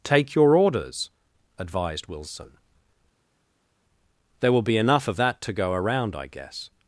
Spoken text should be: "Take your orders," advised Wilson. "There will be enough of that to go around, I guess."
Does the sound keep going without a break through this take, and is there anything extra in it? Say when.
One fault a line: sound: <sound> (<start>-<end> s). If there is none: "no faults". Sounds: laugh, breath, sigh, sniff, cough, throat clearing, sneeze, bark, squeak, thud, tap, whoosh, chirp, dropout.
no faults